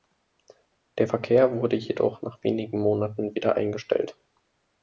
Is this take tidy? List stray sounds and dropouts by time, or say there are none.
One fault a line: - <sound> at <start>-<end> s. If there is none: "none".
none